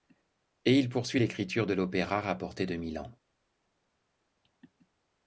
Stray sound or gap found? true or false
false